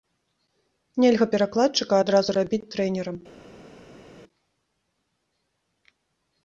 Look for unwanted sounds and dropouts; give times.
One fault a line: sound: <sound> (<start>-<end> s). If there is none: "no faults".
no faults